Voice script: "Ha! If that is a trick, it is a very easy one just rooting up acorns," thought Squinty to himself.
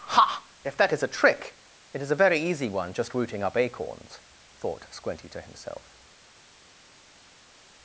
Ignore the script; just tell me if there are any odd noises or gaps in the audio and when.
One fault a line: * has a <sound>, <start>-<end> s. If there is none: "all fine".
all fine